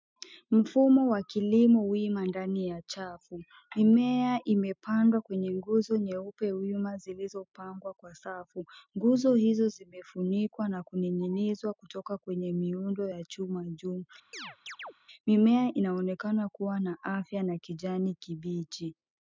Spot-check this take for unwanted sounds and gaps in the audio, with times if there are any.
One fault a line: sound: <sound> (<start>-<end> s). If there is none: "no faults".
sound: chirp (14.3-14.9 s)